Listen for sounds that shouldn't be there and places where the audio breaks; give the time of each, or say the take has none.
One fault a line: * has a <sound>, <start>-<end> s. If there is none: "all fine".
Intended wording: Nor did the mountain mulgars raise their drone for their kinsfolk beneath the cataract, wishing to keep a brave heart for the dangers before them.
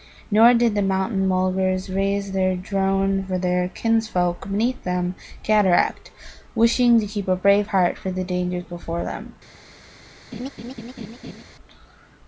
* has a laugh, 10.3-11.4 s